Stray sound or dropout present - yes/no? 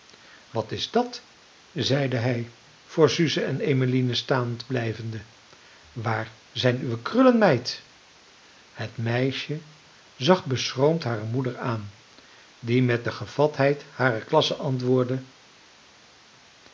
no